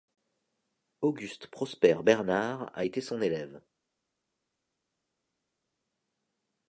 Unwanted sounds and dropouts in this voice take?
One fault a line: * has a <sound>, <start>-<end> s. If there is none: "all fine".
all fine